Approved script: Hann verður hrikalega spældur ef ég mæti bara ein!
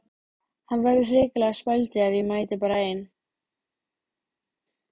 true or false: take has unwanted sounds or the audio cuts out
false